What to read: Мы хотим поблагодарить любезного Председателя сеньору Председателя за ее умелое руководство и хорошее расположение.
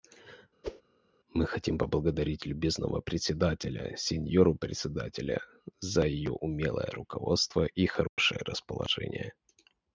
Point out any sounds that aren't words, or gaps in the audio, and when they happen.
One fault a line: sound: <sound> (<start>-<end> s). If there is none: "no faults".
sound: whoosh (0.6-0.8 s)
sound: dropout (8.1-8.2 s)